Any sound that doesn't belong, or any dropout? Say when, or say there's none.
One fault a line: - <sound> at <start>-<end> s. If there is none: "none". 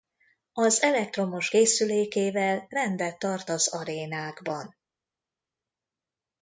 none